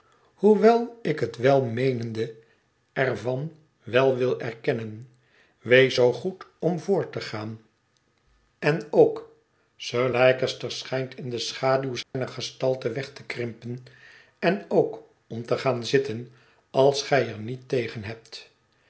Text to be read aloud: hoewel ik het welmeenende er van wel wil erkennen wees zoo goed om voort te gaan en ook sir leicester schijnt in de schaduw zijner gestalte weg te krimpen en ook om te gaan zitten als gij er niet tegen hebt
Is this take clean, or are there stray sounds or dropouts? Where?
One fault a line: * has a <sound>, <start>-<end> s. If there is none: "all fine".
* has a dropout, 12.0-12.1 s